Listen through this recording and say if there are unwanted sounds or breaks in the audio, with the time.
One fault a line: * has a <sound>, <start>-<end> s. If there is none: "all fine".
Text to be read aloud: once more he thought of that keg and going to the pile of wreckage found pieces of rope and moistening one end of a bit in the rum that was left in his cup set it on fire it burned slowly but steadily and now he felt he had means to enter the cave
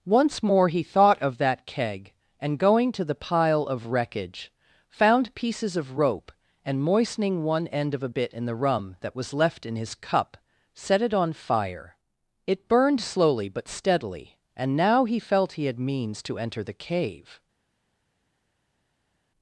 all fine